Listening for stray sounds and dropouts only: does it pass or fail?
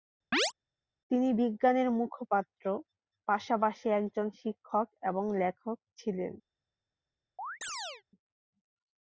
fail